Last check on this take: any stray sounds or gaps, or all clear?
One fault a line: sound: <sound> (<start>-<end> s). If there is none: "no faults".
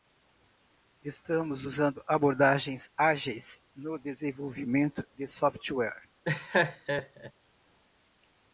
sound: laugh (6.2-7.3 s)